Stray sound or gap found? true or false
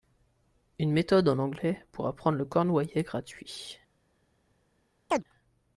true